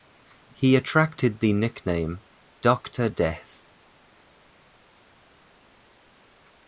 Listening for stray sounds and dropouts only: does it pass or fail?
pass